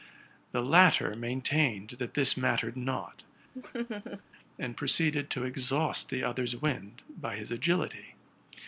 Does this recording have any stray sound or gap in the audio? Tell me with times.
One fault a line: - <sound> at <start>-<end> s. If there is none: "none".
- laugh at 3.5-4.2 s